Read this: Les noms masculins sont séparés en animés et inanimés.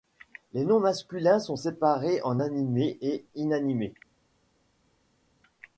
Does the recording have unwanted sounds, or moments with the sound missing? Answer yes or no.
no